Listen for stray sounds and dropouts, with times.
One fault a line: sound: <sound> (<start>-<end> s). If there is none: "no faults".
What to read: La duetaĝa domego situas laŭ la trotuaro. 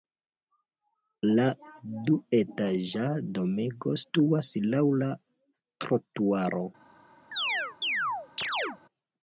sound: chirp (7.3-8.8 s)